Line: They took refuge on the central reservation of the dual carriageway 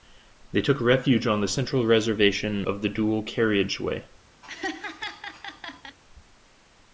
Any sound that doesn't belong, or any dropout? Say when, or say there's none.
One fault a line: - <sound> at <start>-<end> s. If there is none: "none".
- laugh at 4.4-6.0 s